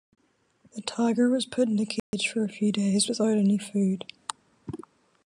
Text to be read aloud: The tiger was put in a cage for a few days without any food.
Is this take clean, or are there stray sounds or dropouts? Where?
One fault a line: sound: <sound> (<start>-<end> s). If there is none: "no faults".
sound: dropout (2.0-2.1 s)